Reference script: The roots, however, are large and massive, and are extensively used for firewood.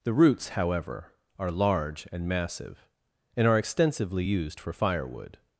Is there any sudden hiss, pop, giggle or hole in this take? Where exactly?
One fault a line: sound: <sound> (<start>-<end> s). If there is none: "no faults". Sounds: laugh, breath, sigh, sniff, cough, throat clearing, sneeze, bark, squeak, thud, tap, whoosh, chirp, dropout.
no faults